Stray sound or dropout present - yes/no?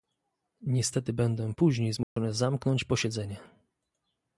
yes